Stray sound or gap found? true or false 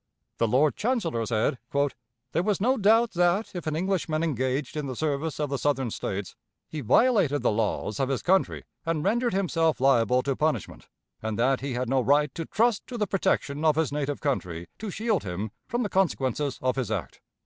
false